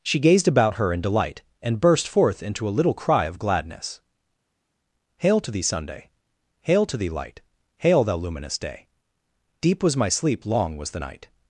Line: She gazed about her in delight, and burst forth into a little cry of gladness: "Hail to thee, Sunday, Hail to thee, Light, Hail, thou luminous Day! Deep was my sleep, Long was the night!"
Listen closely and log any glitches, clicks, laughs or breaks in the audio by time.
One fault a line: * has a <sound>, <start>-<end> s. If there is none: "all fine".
all fine